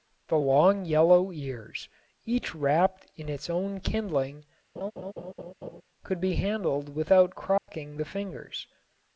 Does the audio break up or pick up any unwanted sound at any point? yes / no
yes